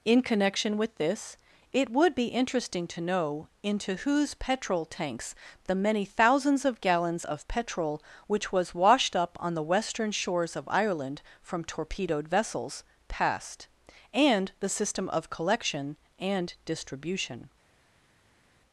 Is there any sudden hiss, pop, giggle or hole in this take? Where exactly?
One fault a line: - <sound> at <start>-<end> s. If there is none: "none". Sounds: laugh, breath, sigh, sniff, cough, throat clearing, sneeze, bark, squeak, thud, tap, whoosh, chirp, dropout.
none